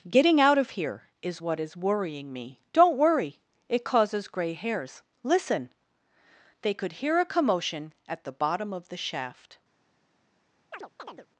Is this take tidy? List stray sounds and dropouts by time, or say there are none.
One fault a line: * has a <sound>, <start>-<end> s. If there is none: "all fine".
* has a chirp, 10.7-11.3 s